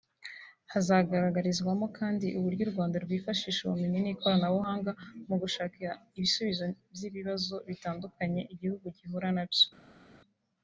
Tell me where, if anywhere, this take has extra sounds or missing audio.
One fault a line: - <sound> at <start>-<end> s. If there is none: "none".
none